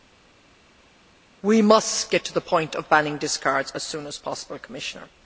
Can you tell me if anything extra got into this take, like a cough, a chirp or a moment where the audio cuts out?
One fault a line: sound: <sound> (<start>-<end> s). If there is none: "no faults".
no faults